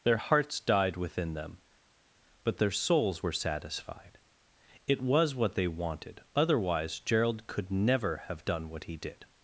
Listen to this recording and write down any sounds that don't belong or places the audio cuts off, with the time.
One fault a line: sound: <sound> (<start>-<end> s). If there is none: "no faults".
no faults